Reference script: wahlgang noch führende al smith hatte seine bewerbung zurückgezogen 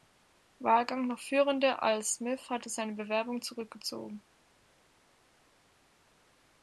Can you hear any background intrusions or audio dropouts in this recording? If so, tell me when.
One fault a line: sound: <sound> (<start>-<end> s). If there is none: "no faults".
no faults